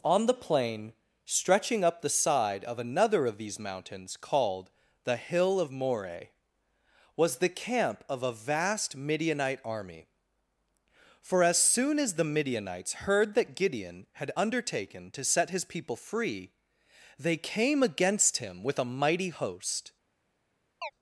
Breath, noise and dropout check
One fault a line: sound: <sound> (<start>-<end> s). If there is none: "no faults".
sound: chirp (20.8-20.9 s)